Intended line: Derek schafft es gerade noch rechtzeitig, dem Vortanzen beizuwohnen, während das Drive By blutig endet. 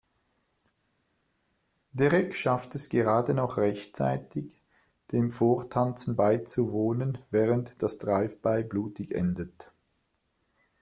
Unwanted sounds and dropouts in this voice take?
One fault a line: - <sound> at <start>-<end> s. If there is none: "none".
none